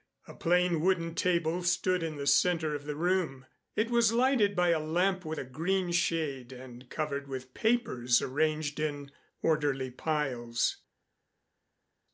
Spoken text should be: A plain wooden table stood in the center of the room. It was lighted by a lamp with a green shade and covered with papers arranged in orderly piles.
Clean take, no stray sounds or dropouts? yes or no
yes